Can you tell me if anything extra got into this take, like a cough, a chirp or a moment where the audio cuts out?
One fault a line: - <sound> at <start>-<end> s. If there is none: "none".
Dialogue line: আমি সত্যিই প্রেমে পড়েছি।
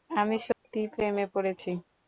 - dropout at 0.5-0.6 s